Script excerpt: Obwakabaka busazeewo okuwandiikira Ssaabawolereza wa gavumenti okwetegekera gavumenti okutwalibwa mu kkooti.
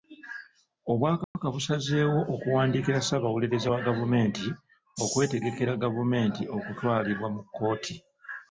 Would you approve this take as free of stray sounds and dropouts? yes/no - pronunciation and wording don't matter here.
no